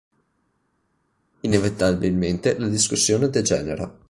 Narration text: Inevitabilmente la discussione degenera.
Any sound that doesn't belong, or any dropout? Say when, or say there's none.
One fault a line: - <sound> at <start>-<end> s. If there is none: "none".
none